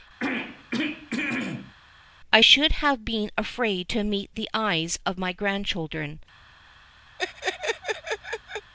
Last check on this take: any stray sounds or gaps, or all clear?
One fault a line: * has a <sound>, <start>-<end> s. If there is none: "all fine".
* has a throat clearing, 0.2-1.7 s
* has a laugh, 7.2-8.7 s